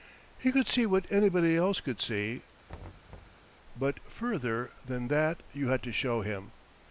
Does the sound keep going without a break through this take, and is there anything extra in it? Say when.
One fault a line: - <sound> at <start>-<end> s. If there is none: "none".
- thud at 2.7-3.5 s